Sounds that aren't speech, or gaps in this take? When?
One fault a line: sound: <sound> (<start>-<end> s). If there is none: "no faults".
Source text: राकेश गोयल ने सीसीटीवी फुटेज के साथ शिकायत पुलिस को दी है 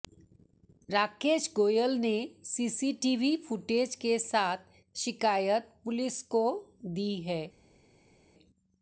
no faults